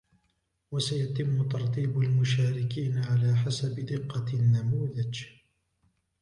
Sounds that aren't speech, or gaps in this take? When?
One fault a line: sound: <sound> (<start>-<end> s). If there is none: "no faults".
no faults